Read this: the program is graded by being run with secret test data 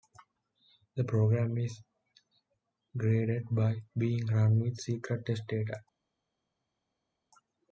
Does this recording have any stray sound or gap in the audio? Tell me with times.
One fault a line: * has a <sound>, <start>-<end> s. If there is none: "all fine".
all fine